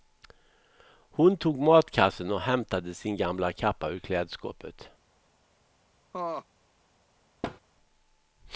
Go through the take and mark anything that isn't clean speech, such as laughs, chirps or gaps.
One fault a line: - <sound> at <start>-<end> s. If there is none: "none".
- laugh at 6.1-6.5 s
- thud at 7.4-7.6 s